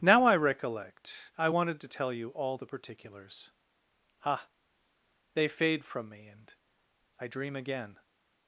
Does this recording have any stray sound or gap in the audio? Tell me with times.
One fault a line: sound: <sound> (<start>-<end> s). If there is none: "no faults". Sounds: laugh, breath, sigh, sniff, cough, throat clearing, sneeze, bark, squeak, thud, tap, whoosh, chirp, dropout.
no faults